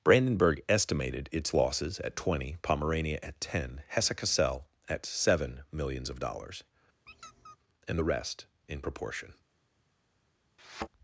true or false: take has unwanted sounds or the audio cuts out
true